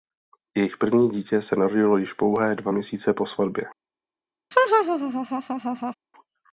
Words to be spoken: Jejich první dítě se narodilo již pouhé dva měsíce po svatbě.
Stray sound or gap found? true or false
true